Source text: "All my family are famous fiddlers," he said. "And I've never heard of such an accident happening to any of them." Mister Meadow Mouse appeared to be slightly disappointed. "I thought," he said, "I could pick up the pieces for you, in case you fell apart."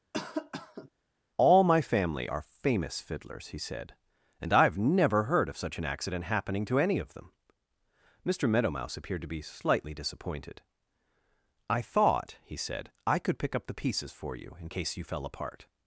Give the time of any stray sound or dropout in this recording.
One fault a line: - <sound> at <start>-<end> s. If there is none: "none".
- cough at 0.1-0.9 s